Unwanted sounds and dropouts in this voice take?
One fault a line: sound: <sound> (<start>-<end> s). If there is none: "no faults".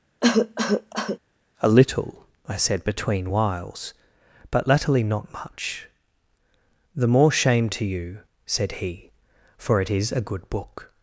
sound: cough (0.2-1.2 s)